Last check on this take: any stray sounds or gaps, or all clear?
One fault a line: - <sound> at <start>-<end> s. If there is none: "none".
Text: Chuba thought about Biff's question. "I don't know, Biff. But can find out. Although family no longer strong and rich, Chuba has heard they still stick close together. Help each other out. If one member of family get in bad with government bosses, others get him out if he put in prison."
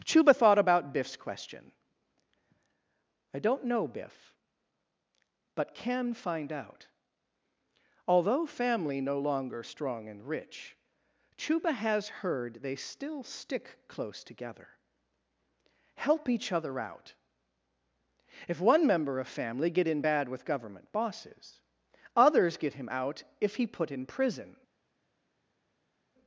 none